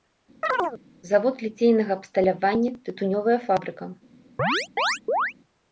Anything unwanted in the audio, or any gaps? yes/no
yes